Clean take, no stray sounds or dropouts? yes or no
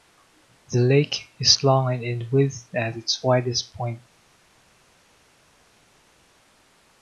yes